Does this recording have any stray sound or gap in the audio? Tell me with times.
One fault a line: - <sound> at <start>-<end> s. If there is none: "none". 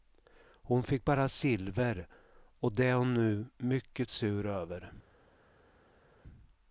none